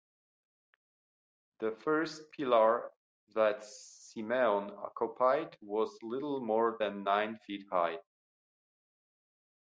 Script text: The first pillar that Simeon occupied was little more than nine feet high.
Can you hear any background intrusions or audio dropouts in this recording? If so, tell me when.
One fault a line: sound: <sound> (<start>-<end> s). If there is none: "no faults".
no faults